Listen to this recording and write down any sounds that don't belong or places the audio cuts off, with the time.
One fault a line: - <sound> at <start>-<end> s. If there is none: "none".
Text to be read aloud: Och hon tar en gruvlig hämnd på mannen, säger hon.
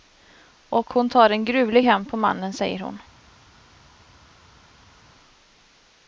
none